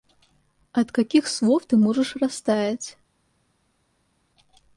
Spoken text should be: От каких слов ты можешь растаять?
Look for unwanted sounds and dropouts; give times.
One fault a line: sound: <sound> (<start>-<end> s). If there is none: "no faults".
no faults